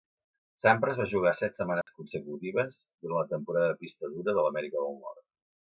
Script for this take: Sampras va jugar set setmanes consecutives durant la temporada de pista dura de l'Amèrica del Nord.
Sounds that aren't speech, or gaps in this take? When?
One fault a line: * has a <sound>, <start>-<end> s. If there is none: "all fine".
* has a dropout, 1.8-1.9 s